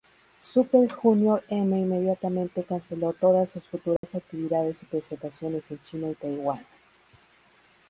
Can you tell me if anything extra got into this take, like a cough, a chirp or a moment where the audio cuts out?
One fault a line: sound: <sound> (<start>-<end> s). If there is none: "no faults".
sound: dropout (4.0-4.0 s)